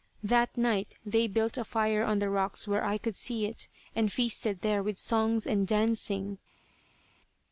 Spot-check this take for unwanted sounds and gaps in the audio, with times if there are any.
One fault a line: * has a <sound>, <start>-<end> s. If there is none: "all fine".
all fine